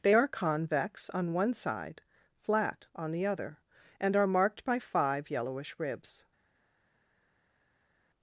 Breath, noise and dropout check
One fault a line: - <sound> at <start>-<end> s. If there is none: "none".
none